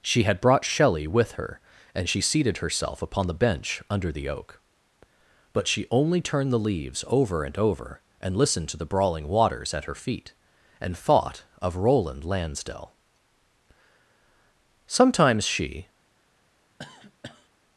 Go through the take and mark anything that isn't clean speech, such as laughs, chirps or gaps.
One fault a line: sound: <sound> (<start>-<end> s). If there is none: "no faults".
sound: cough (16.8-17.5 s)